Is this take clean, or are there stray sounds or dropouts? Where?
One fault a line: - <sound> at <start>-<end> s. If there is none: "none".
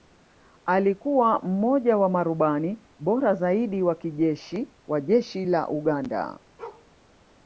- bark at 6.6-6.9 s